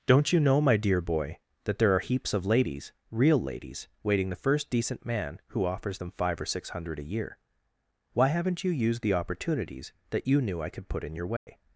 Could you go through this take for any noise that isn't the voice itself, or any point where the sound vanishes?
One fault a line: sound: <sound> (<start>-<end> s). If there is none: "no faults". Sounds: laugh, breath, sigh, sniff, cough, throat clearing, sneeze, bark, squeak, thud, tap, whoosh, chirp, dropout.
sound: dropout (11.4-11.5 s)